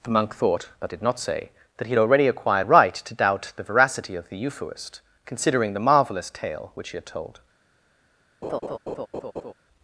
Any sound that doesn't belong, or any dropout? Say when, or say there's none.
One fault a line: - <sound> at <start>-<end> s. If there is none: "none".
- laugh at 8.4-9.5 s